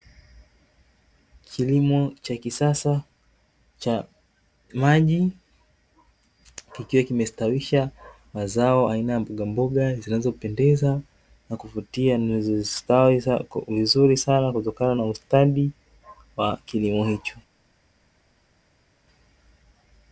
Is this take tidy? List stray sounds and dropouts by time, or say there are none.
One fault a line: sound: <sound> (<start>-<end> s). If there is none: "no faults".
no faults